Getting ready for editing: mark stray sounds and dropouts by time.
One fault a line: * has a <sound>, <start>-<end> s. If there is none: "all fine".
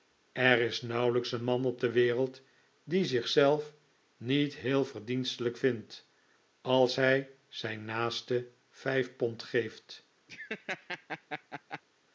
* has a laugh, 10.3-11.8 s